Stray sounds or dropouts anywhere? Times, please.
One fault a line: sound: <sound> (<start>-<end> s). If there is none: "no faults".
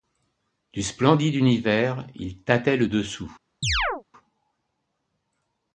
sound: chirp (3.6-4.0 s)